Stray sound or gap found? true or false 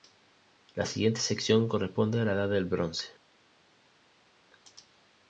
false